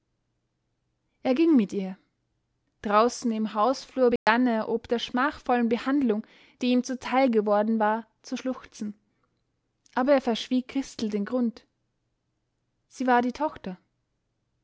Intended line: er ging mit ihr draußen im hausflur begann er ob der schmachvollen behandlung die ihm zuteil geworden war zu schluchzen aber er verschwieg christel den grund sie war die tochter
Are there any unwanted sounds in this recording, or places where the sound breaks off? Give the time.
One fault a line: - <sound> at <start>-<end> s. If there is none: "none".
- dropout at 4.2-4.3 s